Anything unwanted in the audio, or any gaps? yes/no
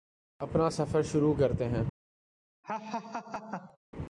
yes